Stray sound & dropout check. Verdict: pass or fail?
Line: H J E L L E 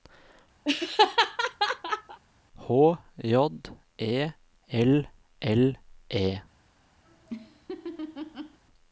fail